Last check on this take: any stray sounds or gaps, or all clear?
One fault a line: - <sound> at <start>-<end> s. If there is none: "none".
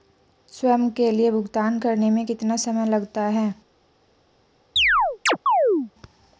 - chirp at 4.8-5.9 s